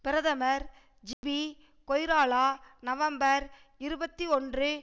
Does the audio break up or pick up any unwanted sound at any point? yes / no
yes